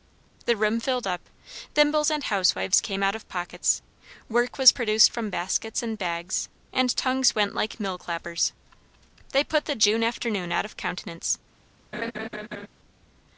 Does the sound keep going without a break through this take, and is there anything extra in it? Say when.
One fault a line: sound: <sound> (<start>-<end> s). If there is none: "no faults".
sound: laugh (11.9-12.7 s)